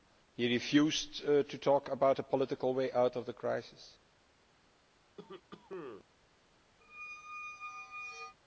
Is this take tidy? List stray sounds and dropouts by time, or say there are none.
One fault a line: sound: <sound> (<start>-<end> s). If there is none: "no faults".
sound: cough (5.2-6.0 s)
sound: squeak (6.8-8.4 s)